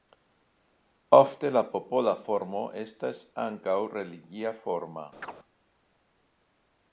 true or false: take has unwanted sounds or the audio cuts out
true